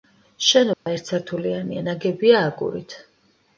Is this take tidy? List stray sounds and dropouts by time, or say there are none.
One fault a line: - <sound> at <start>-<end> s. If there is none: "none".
- dropout at 0.7-0.9 s